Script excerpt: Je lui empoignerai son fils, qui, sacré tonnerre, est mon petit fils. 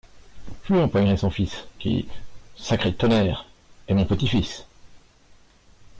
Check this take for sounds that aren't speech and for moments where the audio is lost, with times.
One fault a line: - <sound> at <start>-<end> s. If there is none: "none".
none